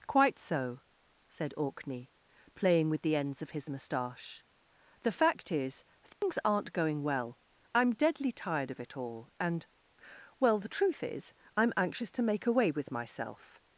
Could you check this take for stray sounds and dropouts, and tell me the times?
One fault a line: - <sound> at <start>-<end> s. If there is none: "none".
- dropout at 6.1-6.2 s